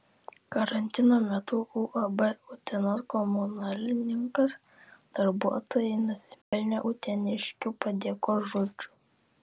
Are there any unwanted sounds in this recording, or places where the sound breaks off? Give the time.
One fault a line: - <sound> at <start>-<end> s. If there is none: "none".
- dropout at 6.4-6.5 s